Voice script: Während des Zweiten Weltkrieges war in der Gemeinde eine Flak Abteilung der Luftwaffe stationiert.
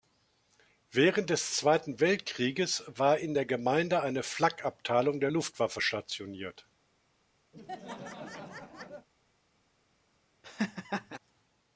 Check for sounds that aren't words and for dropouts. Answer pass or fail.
fail